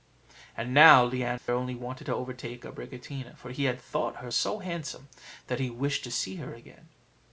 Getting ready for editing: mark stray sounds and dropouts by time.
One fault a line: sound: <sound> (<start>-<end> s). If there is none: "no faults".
sound: dropout (1.4-1.5 s)